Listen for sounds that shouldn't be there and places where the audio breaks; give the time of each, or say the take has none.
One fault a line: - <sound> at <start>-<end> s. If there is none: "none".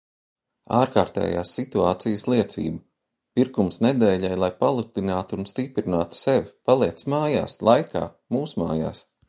none